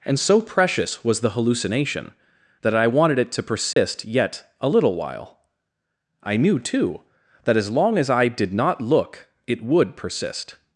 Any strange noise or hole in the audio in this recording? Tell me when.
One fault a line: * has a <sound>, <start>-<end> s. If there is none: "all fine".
* has a dropout, 3.7-3.8 s